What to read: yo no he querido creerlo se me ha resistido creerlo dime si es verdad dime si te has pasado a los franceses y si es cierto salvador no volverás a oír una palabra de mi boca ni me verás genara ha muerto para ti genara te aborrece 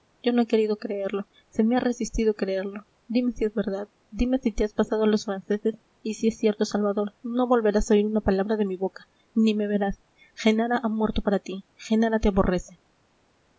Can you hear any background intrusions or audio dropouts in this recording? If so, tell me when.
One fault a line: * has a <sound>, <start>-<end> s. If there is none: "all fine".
all fine